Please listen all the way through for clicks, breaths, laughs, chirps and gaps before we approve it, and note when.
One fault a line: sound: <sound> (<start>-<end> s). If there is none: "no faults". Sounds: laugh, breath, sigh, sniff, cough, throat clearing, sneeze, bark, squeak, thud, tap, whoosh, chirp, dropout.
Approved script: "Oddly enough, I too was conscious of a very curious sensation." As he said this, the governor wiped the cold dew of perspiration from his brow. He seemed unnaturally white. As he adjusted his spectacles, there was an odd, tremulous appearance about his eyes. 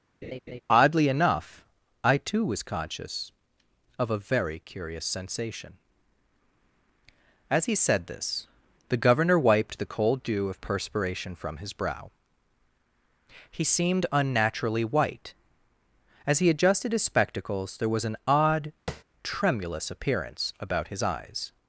sound: laugh (0.2-0.6 s)
sound: tap (18.9-19.0 s)